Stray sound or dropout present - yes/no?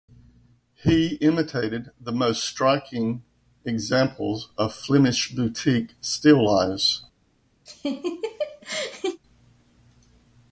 yes